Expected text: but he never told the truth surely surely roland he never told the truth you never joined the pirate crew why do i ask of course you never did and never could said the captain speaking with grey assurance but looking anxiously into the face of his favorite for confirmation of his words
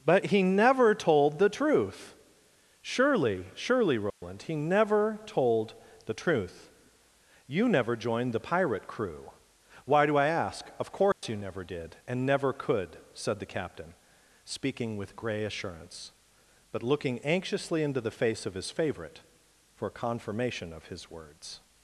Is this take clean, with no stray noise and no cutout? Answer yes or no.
no